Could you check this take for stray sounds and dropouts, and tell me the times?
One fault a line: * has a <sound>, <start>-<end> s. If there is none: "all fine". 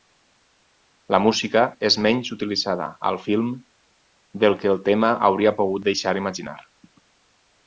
all fine